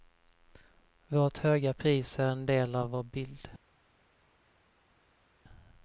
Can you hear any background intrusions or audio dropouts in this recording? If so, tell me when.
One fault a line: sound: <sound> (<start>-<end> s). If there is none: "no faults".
no faults